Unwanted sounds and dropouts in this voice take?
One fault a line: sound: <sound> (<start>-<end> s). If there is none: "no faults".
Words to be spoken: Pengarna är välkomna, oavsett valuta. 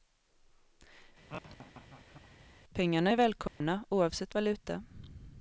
sound: laugh (1.3-2.5 s)
sound: dropout (3.5-3.6 s)